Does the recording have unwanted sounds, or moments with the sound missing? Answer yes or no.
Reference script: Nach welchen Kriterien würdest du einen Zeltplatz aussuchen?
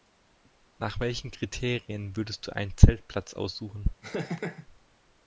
yes